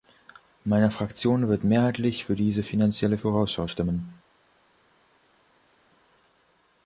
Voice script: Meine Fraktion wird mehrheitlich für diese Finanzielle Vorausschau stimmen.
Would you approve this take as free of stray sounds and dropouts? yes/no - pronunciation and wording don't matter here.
yes